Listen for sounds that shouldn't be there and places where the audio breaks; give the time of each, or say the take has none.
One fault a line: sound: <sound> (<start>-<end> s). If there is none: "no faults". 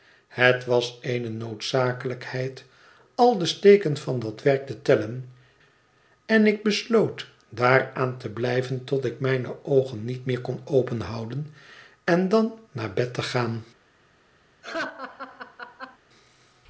sound: laugh (14.6-16.0 s)